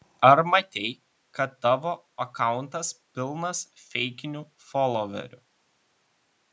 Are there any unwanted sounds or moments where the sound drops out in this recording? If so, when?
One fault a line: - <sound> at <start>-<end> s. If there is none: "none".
none